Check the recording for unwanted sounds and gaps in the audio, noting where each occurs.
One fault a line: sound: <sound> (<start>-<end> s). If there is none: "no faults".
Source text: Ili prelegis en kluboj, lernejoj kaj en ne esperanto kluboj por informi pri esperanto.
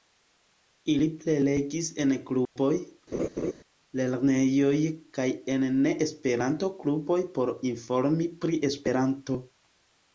sound: dropout (2.5-2.6 s)
sound: laugh (3.1-3.5 s)